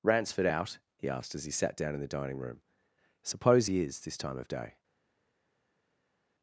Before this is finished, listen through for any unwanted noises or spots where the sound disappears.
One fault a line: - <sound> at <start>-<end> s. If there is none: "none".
none